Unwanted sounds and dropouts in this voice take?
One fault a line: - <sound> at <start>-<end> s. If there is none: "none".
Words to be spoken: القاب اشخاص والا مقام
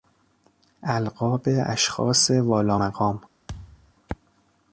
- thud at 3.5-3.9 s